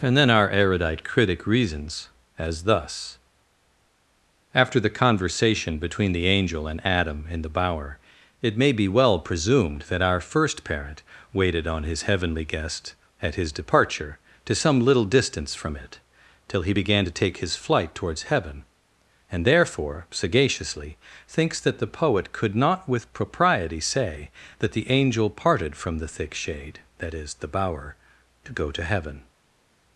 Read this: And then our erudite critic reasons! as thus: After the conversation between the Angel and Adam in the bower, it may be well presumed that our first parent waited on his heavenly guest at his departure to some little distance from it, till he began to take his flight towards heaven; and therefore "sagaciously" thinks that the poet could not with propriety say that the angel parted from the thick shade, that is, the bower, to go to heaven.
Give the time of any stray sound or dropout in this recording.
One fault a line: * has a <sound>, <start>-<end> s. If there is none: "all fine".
all fine